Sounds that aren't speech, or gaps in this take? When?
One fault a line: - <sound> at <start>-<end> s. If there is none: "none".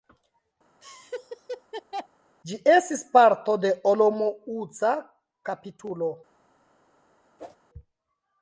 - laugh at 0.8-2.1 s
- whoosh at 7.4-7.6 s